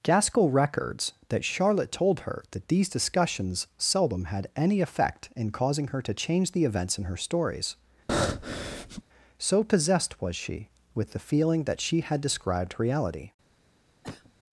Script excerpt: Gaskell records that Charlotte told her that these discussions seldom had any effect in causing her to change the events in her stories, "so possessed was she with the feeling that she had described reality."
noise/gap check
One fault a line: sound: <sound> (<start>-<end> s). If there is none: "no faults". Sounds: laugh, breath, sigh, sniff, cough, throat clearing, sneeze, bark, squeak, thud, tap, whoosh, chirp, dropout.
sound: breath (8.1-9.0 s)
sound: cough (14.0-14.3 s)